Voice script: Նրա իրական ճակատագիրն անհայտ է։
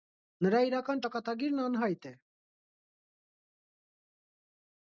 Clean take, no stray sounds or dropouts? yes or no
yes